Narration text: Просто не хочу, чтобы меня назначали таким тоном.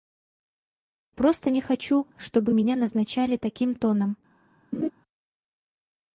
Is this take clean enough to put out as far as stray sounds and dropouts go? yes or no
no